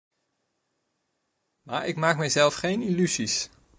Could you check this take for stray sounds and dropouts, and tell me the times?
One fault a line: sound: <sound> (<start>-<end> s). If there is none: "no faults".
no faults